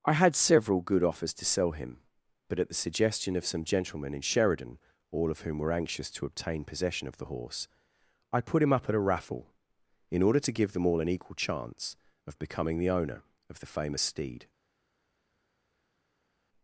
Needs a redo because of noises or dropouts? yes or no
no